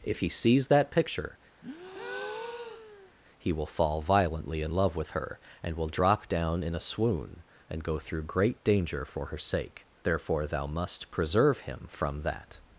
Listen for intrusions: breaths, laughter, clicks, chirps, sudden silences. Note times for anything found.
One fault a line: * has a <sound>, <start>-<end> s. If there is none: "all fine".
* has a breath, 1.6-3.1 s